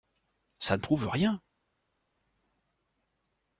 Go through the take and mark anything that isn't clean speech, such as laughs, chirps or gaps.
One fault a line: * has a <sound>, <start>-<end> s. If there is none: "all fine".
all fine